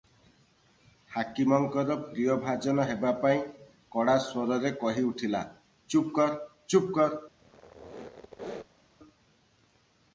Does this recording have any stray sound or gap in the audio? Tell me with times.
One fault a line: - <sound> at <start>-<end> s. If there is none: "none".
- squeak at 7.4-8.8 s